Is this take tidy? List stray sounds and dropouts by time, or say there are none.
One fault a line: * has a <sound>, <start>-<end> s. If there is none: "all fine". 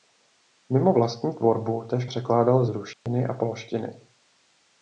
* has a dropout, 2.9-3.1 s